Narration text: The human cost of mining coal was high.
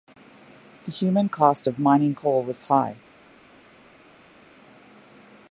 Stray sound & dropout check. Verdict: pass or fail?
pass